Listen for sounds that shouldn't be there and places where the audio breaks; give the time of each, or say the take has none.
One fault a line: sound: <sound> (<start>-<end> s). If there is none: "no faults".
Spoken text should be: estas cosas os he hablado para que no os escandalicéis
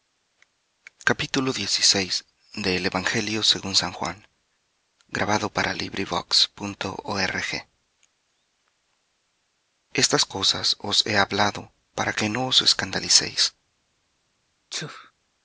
sound: sneeze (14.7-15.1 s)